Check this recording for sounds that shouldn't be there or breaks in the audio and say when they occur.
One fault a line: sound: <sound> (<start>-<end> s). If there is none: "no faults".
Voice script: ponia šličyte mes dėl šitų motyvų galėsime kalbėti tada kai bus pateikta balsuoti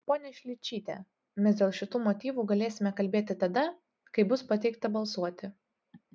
no faults